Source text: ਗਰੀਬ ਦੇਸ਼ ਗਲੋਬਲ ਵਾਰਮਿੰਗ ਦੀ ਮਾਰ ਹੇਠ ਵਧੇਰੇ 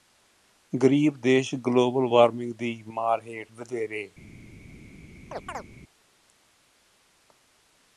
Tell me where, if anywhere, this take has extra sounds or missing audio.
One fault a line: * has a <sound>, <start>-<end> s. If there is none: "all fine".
* has a chirp, 5.3-5.7 s